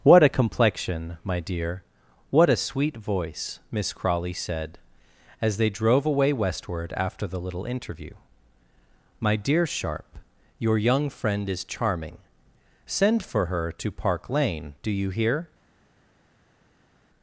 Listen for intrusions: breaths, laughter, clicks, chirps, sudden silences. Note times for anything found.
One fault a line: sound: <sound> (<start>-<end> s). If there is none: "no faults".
no faults